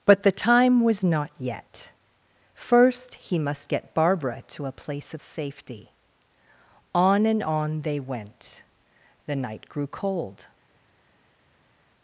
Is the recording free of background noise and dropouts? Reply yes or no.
yes